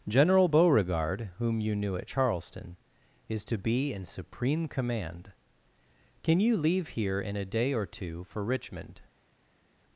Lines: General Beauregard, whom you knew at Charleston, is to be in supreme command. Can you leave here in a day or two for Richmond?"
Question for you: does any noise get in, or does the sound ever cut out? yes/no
no